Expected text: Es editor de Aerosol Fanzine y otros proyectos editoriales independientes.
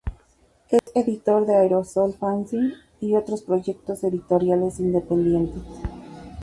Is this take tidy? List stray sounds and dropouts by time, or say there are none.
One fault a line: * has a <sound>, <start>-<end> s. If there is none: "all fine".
* has a dropout, 0.8-0.9 s